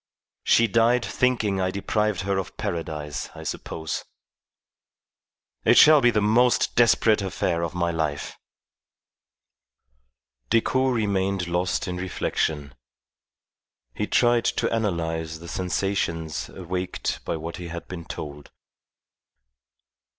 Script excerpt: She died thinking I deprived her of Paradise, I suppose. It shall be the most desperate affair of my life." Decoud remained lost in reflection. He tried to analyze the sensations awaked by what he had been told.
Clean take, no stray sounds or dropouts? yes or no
yes